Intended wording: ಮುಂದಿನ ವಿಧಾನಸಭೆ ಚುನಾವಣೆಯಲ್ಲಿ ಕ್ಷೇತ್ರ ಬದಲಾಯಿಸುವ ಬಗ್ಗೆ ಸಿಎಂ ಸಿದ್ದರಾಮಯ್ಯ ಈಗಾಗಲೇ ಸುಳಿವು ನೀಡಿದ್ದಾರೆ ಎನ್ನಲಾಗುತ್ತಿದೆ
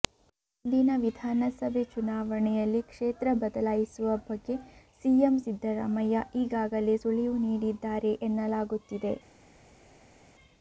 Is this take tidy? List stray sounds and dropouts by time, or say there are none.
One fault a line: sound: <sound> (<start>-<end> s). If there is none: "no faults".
no faults